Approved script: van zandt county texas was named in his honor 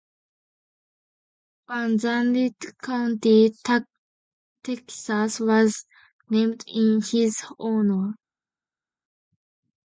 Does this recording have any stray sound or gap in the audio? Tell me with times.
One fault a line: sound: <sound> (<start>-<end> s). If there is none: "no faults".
no faults